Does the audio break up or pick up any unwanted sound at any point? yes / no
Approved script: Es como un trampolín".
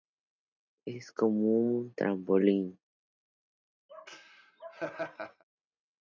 yes